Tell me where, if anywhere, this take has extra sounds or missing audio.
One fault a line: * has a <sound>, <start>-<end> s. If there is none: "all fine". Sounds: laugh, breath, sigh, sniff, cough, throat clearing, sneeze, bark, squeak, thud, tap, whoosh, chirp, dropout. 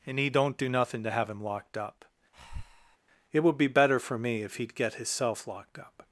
* has a breath, 2.3-3.0 s